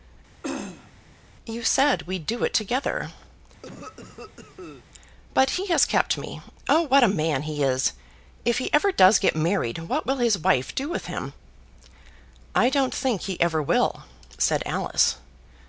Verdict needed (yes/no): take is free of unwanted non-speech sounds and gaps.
no